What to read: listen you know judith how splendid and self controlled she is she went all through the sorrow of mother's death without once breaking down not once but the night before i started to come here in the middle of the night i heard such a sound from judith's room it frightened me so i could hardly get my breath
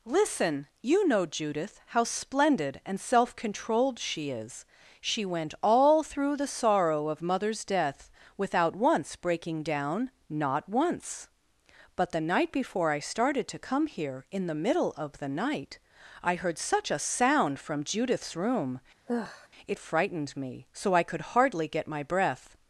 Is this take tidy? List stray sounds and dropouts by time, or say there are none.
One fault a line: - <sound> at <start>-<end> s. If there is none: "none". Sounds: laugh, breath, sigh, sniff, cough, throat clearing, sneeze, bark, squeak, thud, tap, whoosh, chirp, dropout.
- sigh at 19.1-19.5 s